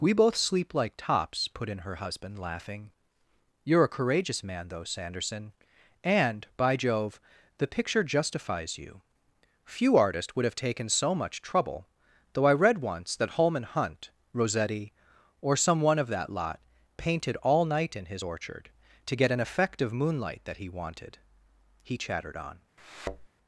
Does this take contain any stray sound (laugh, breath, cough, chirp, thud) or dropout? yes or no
yes